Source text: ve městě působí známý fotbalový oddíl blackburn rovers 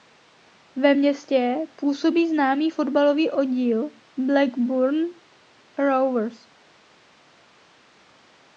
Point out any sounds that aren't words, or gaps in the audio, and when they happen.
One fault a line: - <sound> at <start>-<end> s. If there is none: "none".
none